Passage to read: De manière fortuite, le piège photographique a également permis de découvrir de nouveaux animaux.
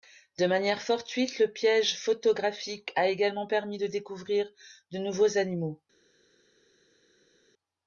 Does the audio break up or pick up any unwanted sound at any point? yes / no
no